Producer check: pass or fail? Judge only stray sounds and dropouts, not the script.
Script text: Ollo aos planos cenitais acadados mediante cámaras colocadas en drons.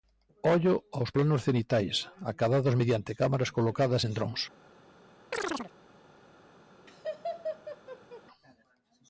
fail